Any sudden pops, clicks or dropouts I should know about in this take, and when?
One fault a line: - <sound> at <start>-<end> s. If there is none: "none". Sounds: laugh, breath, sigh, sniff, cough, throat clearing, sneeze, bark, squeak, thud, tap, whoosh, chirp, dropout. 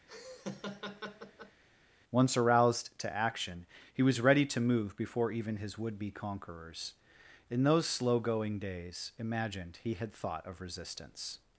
- laugh at 0.1-1.6 s